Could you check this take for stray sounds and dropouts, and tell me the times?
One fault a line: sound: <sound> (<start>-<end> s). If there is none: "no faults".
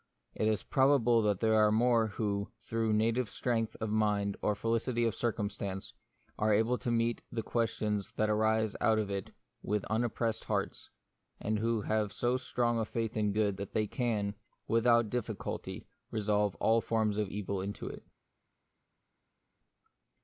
no faults